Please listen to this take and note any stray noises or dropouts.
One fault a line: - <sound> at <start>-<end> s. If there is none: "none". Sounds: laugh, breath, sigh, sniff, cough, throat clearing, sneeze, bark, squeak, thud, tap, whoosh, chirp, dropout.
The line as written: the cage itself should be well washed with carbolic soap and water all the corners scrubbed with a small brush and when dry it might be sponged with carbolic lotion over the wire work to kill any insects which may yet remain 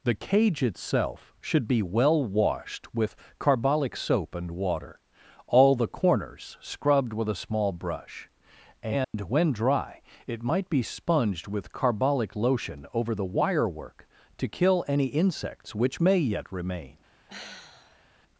- dropout at 9.0-9.1 s
- sigh at 17.3-18.0 s